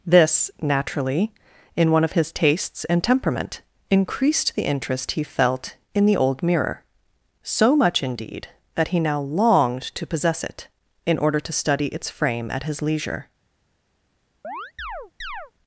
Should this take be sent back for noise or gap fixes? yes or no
yes